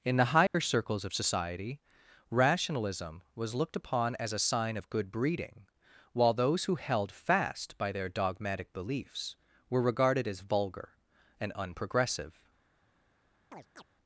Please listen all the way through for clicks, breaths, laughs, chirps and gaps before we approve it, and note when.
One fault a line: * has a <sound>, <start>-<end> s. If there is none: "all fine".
* has a dropout, 0.5-0.5 s
* has a chirp, 13.5-13.8 s